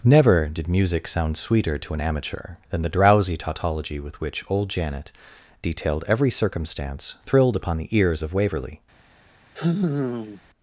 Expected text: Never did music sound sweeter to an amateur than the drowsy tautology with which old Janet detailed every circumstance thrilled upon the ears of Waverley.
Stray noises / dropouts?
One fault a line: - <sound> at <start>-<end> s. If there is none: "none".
- sigh at 9.6-10.4 s